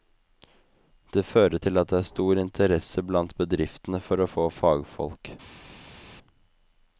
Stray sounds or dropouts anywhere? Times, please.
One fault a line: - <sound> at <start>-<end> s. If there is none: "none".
none